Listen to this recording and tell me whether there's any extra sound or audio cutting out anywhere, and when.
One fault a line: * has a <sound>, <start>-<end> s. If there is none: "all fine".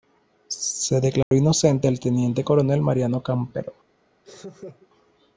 * has a dropout, 1.2-1.3 s
* has a laugh, 4.2-4.9 s